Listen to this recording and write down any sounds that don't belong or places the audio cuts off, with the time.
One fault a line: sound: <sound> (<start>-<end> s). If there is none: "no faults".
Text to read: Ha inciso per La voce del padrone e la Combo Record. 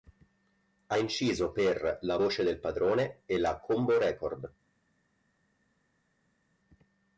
no faults